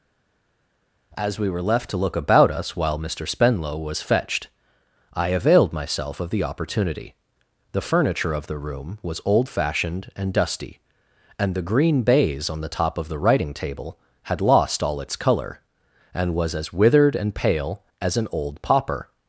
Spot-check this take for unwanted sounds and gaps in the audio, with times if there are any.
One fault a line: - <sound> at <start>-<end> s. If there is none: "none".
none